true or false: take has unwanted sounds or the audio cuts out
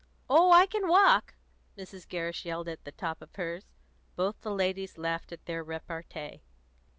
false